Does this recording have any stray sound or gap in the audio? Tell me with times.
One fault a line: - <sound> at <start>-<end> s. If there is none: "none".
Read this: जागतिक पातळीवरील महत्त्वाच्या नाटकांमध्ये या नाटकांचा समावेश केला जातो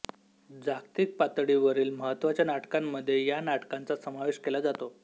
none